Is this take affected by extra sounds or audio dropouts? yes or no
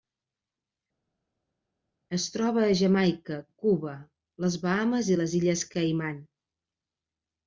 no